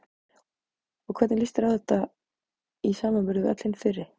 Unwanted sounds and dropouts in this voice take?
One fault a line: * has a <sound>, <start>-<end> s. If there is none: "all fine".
all fine